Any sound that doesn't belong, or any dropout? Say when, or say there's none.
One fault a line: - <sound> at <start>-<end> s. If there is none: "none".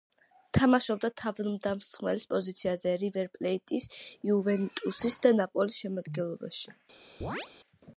- chirp at 7.2-7.5 s